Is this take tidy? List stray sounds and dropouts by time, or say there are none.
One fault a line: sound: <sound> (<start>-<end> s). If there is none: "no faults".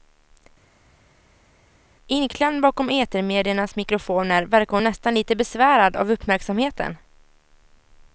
no faults